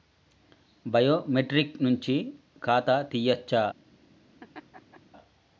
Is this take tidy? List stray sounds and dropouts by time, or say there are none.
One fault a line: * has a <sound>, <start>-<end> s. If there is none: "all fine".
* has a laugh, 4.4-5.0 s